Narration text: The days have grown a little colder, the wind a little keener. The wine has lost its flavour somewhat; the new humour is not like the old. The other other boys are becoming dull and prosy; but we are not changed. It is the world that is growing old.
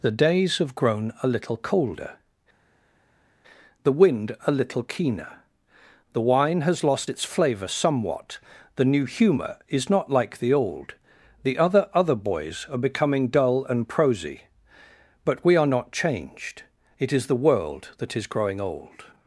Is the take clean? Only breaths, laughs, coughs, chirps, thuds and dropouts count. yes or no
yes